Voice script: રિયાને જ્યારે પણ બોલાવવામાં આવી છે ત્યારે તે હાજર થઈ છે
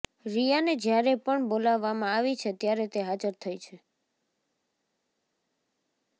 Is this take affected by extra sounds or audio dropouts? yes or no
no